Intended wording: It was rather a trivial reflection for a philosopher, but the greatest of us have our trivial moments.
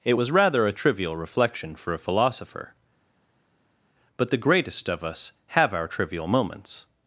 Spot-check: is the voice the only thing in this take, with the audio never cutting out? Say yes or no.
yes